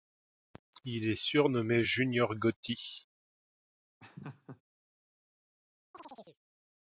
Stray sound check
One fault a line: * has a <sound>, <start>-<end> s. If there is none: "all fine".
* has a laugh, 4.0-4.6 s
* has a chirp, 5.9-6.4 s